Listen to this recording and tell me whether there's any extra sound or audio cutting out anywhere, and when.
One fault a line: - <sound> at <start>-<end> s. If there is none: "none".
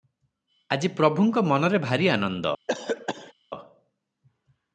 - cough at 2.7-3.3 s